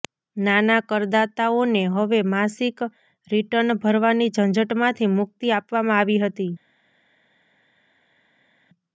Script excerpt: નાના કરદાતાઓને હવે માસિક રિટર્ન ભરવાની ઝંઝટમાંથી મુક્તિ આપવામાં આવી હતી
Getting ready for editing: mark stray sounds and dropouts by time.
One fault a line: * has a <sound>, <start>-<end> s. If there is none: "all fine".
all fine